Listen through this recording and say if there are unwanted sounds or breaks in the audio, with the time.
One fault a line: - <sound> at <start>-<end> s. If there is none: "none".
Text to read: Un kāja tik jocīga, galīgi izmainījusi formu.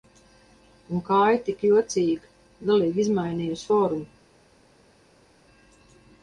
none